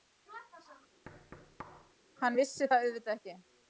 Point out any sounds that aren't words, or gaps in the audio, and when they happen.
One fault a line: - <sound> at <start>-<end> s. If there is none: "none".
- thud at 1.1-1.9 s